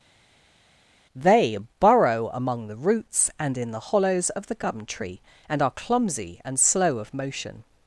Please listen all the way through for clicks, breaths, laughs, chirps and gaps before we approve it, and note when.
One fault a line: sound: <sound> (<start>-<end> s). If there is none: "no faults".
no faults